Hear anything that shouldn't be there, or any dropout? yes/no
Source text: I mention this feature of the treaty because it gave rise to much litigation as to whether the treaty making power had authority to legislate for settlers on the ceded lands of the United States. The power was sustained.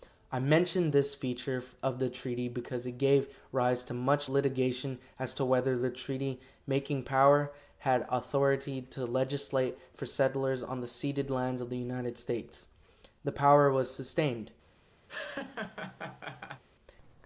yes